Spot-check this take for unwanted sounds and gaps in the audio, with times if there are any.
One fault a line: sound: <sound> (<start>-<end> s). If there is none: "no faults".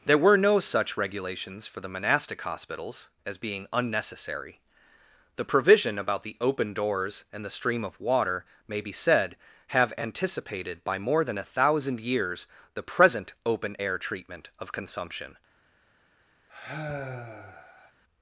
sound: sigh (16.5-17.9 s)